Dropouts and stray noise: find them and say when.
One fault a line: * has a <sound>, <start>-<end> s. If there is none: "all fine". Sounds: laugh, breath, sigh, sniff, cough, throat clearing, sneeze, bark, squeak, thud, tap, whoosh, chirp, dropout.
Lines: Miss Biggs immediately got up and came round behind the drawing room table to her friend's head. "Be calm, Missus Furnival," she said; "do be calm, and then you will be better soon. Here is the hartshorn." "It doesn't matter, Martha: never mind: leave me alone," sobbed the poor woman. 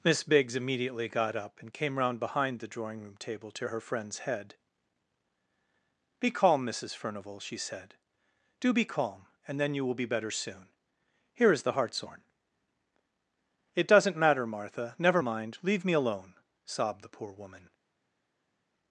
all fine